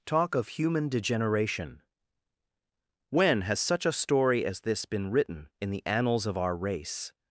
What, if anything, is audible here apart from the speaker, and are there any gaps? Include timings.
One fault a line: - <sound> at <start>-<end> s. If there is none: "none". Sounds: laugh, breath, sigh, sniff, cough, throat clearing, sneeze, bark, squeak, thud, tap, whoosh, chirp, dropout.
none